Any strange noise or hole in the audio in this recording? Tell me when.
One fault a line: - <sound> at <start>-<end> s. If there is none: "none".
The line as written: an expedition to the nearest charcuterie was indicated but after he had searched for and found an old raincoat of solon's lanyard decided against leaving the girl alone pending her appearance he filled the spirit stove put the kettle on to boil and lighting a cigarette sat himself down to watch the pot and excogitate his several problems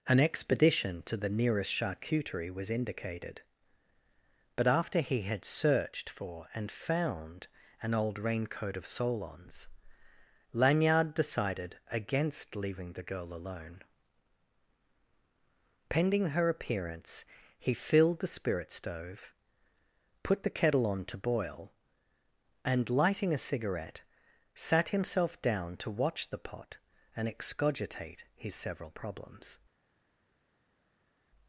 none